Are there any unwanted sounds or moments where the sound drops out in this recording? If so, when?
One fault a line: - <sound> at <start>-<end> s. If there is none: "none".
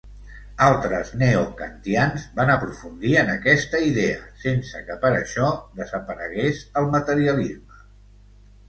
none